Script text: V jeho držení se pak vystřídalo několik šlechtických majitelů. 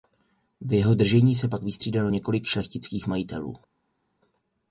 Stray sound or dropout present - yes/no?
no